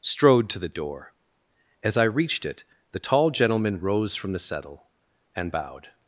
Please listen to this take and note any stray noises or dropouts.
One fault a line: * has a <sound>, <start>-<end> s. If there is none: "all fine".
all fine